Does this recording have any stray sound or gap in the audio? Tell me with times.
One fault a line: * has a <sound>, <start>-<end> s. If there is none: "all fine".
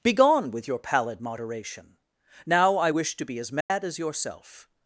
* has a dropout, 3.6-3.7 s